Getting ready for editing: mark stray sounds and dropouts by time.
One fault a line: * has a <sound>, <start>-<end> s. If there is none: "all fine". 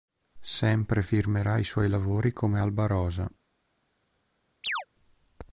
* has a chirp, 4.6-4.9 s